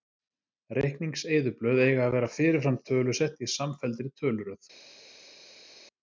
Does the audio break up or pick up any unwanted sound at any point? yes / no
no